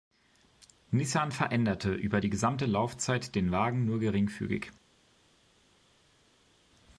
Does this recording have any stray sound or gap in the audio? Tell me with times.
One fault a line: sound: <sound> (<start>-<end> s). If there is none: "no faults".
no faults